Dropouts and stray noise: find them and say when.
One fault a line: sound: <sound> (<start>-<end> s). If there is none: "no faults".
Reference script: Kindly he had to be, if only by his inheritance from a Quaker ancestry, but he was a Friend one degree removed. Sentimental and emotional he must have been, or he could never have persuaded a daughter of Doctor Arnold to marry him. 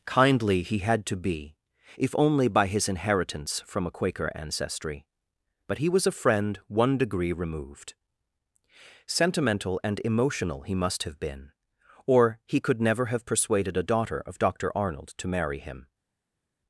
no faults